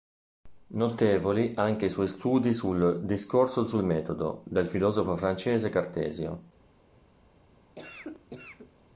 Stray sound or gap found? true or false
true